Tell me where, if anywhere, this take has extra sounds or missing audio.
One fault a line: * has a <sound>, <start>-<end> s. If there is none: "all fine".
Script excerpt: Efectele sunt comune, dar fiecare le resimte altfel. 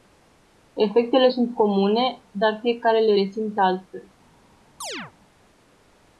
* has a chirp, 4.8-5.1 s